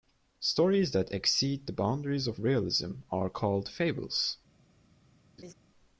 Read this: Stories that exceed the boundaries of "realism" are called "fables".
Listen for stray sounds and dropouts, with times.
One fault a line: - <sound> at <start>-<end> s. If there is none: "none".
- laugh at 5.4-5.5 s